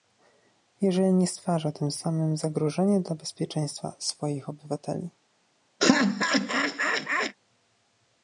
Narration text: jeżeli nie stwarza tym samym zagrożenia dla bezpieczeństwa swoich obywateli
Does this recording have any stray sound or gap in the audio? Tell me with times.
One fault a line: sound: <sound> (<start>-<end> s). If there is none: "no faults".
sound: laugh (5.8-7.4 s)